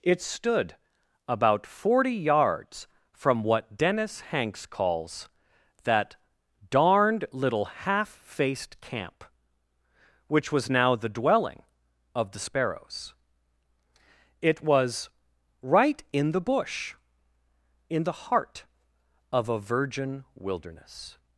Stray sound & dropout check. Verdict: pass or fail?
pass